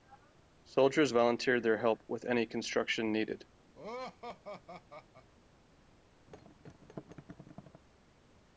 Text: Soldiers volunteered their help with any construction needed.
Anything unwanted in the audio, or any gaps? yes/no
yes